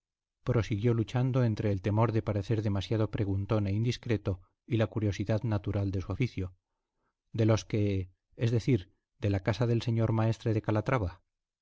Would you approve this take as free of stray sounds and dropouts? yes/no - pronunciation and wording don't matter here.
yes